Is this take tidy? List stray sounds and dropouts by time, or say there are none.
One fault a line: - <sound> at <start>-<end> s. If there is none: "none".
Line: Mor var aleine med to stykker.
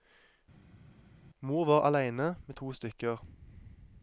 none